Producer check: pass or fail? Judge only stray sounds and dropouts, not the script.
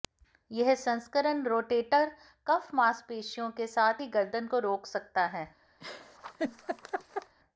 fail